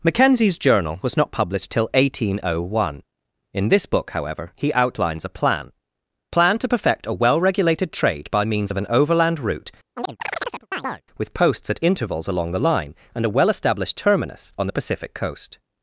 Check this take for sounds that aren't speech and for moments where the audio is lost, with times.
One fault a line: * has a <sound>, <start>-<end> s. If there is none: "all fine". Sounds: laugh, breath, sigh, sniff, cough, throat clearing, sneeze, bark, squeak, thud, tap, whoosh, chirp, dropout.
* has a chirp, 10.0-11.0 s